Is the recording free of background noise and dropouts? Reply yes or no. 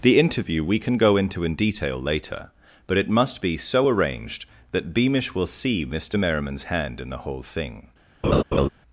no